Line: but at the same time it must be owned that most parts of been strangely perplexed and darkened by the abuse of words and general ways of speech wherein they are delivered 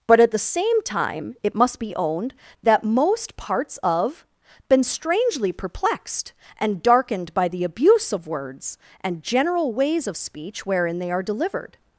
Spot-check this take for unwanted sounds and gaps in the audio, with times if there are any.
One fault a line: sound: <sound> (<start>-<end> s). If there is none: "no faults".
no faults